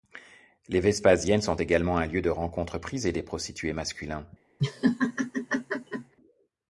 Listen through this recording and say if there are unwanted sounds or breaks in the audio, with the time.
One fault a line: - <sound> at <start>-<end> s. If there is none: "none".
- laugh at 4.6-6.1 s